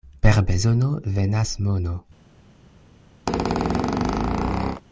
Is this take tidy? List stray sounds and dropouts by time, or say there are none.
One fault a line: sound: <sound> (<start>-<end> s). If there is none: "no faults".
sound: squeak (3.3-4.8 s)